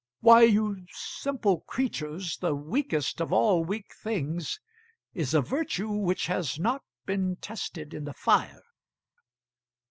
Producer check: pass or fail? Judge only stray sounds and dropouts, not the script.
pass